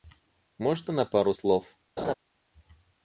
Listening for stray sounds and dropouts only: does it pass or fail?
fail